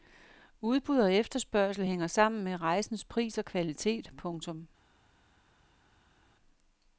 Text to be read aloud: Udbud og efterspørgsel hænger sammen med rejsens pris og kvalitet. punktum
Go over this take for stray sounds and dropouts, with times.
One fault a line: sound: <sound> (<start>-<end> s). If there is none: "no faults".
no faults